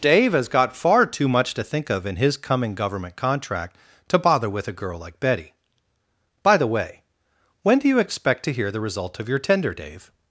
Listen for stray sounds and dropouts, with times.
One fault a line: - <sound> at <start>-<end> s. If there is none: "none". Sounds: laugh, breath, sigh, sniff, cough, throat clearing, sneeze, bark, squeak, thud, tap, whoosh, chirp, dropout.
none